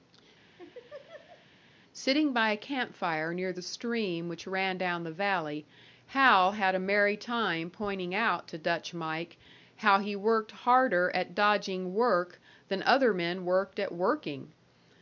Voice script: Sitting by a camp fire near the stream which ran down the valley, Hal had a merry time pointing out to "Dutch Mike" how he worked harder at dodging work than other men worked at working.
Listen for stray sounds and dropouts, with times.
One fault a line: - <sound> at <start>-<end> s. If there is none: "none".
- laugh at 0.6-1.5 s